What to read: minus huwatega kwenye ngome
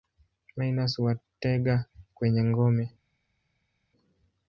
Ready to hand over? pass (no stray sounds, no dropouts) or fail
pass